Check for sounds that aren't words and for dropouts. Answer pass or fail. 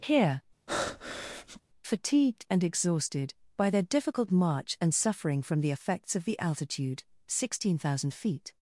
fail